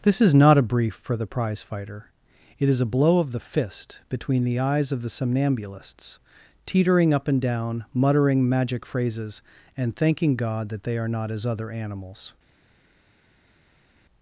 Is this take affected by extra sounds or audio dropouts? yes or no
no